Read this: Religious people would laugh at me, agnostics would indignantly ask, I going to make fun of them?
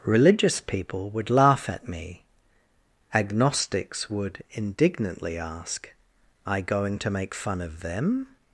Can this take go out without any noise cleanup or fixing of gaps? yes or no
yes